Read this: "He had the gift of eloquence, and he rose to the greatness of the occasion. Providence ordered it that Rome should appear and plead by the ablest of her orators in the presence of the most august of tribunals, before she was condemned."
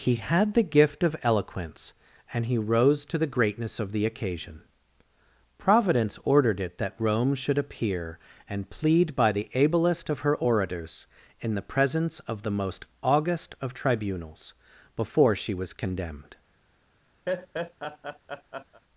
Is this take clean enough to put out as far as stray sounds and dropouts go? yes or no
no